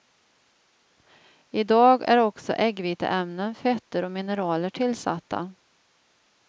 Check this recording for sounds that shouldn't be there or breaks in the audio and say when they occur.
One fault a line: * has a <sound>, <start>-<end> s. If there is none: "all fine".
all fine